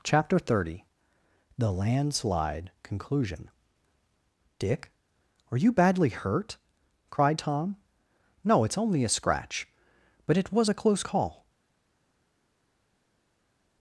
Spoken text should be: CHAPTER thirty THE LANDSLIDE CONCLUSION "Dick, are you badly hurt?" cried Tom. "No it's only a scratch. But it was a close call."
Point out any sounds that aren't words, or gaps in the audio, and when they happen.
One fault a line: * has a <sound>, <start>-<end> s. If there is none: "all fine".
all fine